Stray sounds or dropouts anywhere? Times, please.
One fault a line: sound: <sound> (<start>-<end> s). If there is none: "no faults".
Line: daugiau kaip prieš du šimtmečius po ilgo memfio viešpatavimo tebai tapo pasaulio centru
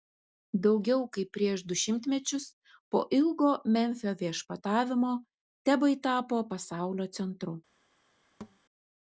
sound: thud (8.4-8.6 s)